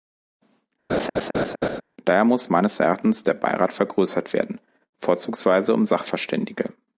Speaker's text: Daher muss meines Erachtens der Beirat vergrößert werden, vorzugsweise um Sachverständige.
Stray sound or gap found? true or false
true